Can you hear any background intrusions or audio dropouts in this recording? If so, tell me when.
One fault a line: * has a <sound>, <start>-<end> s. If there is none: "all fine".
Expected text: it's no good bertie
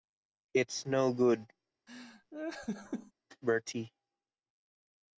* has a laugh, 1.9-3.1 s